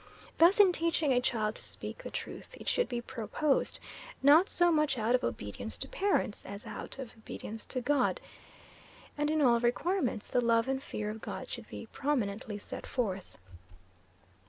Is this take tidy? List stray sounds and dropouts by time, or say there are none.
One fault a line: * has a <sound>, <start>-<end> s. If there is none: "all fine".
all fine